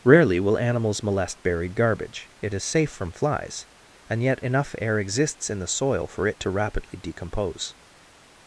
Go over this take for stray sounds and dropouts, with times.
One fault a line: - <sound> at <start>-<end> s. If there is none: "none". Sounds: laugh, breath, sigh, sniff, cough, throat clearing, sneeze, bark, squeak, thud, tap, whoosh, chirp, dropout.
none